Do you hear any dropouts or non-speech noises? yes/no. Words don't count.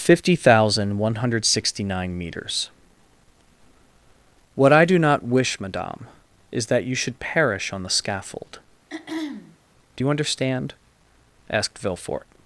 yes